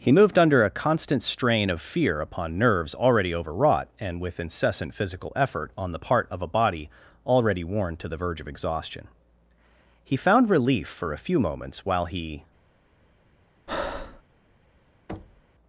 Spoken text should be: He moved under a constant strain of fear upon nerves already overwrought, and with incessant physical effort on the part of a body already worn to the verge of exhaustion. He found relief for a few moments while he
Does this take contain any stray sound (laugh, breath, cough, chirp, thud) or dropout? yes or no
yes